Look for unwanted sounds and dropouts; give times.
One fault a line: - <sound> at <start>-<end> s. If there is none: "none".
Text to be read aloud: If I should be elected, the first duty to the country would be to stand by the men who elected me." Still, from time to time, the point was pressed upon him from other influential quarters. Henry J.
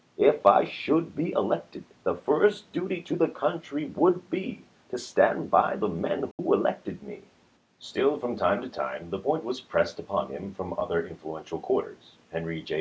- dropout at 6.3-6.4 s